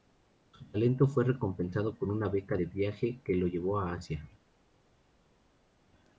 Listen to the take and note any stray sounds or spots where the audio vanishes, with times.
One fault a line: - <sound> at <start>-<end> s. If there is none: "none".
none